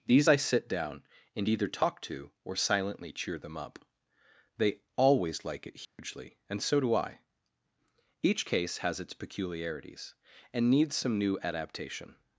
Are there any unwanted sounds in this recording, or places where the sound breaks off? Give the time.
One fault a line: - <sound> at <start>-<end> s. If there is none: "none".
- dropout at 5.9-6.0 s